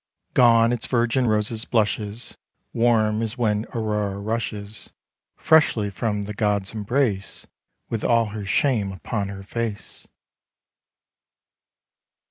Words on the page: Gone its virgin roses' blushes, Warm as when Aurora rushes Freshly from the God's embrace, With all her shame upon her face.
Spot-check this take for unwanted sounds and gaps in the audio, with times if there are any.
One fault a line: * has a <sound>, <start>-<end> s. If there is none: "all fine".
all fine